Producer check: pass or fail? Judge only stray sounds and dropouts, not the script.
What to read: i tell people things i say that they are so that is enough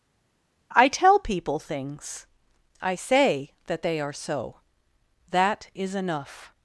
pass